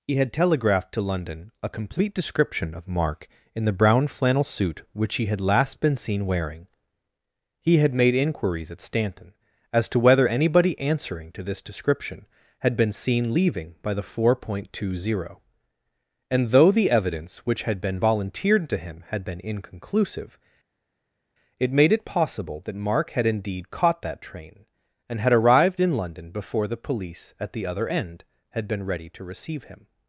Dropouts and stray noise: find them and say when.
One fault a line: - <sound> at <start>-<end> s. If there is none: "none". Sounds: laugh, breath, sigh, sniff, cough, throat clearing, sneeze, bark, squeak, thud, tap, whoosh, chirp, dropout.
none